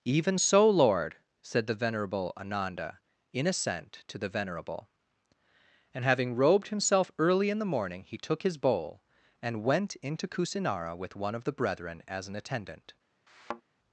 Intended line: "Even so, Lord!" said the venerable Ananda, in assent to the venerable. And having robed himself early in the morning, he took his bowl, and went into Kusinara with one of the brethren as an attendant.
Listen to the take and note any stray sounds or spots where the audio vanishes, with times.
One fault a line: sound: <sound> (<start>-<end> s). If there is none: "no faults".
sound: thud (13.3-13.6 s)